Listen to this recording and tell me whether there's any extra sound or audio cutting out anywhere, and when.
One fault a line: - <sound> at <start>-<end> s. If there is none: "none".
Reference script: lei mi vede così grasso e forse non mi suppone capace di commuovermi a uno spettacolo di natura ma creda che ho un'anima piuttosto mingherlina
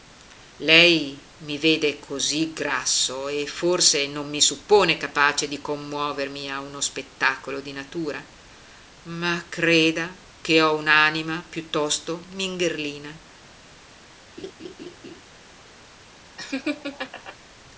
- laugh at 14.4-15.2 s
- laugh at 16.4-17.4 s